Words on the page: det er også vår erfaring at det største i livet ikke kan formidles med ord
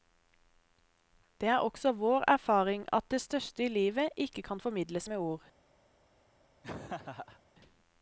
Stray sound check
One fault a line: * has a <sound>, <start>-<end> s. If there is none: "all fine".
* has a laugh, 6.6-7.4 s